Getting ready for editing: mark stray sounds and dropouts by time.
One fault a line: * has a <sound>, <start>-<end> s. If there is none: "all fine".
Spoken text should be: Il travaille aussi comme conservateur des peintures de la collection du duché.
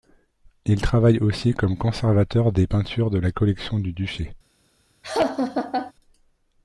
* has a laugh, 5.0-5.9 s